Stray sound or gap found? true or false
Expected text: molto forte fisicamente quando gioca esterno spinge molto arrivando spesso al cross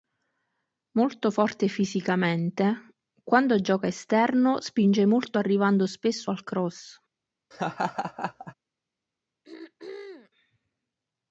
true